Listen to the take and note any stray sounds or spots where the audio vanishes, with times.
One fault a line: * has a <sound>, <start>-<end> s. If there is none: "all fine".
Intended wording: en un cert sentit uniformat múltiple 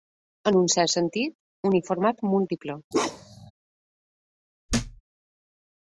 * has a bark, 2.9-3.5 s
* has a thud, 4.7-5.0 s